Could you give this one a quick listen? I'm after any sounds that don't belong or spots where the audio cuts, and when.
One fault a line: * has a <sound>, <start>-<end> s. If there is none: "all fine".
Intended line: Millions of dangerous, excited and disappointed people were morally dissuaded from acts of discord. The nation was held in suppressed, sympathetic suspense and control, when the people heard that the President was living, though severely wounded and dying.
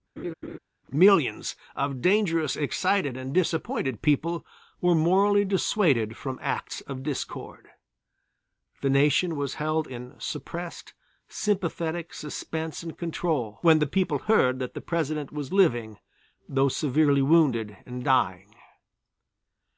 * has a laugh, 0.2-0.6 s